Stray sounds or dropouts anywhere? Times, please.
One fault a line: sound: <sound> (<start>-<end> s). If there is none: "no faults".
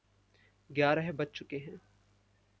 no faults